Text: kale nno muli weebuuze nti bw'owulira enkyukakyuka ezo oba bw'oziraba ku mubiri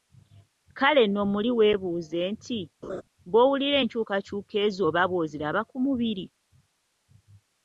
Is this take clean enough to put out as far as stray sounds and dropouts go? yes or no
no